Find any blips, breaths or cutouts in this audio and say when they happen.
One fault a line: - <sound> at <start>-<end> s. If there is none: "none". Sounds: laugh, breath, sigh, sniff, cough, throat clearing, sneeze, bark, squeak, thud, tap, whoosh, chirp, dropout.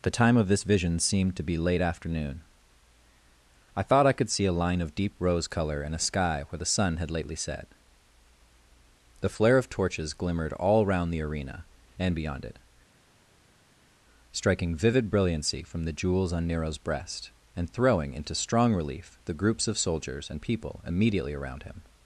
none